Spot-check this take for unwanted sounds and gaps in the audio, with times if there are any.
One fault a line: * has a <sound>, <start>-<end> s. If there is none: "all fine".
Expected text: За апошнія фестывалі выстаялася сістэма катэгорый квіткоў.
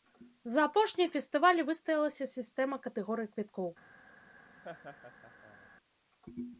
* has a laugh, 4.6-5.7 s